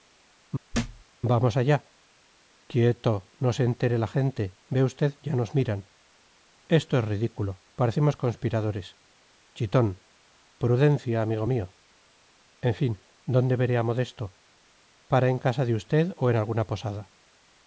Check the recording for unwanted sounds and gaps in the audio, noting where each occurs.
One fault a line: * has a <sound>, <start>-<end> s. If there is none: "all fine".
* has a thud, 0.7-1.0 s